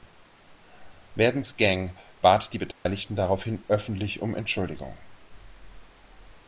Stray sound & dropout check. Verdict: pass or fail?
fail